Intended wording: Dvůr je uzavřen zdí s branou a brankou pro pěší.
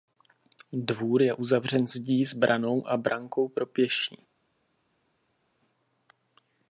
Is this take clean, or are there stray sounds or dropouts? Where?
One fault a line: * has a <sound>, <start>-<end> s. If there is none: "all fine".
all fine